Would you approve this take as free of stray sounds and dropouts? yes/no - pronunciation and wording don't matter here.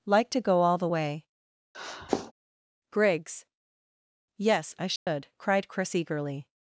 no